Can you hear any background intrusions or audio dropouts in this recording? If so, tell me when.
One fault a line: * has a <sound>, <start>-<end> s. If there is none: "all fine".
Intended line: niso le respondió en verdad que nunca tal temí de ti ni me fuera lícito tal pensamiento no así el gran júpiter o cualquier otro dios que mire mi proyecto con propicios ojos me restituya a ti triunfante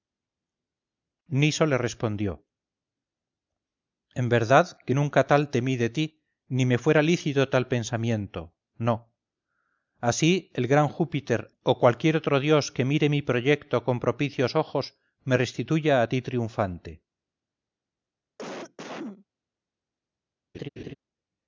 * has a cough, 18.4-19.3 s
* has a laugh, 20.5-20.9 s